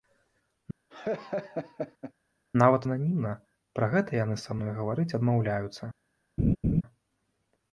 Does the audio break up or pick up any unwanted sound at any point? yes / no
yes